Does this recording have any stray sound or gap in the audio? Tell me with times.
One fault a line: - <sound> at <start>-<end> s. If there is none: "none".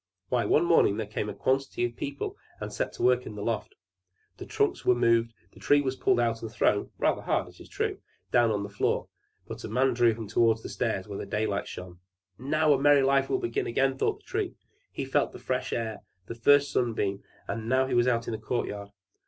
none